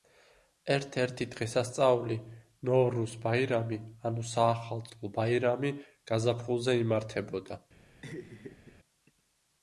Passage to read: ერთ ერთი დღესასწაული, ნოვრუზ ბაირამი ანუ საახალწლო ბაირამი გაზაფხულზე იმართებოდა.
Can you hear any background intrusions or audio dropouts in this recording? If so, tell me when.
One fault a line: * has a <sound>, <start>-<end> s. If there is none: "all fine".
* has a laugh, 8.0-8.7 s